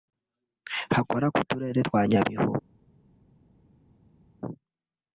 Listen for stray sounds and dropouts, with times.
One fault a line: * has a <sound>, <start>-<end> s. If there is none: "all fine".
all fine